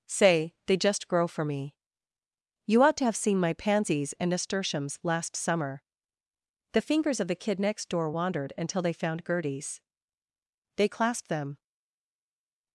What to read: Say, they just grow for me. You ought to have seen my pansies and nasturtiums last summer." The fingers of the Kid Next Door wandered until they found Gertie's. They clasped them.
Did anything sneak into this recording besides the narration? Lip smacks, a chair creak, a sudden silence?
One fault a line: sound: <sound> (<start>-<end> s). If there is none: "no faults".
no faults